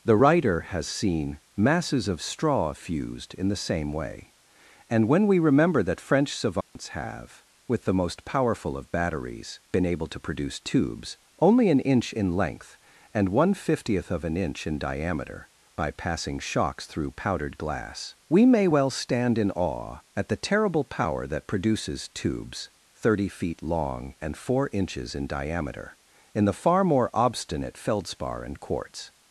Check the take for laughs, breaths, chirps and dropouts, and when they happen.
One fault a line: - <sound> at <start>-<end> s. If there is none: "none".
- dropout at 6.6-6.8 s